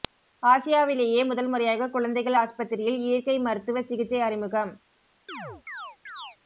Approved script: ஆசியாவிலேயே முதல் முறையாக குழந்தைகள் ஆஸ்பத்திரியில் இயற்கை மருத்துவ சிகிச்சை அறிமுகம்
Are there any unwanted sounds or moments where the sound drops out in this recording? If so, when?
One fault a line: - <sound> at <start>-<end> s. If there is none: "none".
- chirp at 5.3-6.4 s